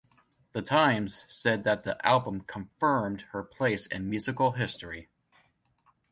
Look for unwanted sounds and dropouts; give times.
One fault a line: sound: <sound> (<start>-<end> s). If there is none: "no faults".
no faults